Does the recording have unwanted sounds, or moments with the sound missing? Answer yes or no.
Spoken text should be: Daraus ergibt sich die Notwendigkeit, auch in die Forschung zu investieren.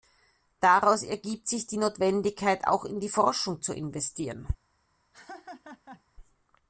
yes